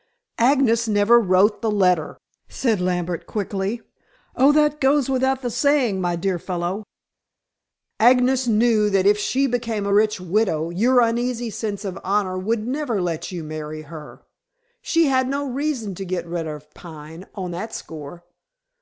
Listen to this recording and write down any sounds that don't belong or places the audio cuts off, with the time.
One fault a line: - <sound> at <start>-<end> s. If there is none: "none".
none